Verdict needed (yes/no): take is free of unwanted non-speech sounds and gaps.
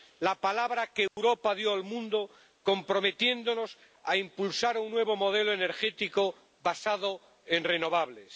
no